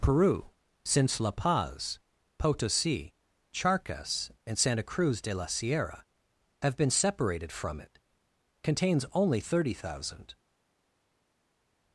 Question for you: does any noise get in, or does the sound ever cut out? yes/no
no